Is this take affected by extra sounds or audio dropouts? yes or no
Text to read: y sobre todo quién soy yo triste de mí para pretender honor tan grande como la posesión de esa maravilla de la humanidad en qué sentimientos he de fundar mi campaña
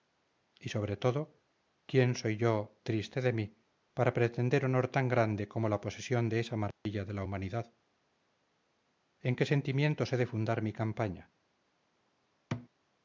yes